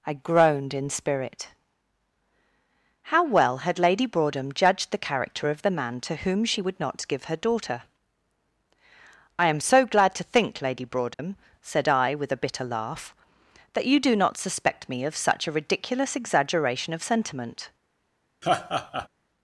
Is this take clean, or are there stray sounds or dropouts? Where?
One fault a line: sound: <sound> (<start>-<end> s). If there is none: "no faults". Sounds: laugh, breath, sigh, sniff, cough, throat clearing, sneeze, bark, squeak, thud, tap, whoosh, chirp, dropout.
sound: dropout (11.1-11.2 s)
sound: laugh (18.4-19.1 s)